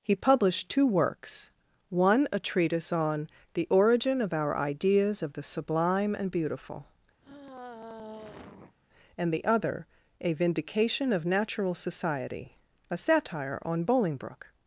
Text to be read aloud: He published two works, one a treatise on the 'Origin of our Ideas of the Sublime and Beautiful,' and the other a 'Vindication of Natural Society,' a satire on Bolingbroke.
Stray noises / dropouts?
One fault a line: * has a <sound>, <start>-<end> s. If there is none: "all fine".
* has a sigh, 7.2-8.8 s